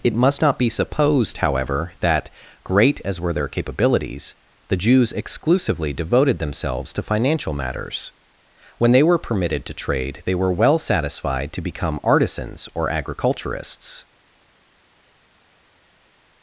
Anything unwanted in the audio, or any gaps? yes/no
no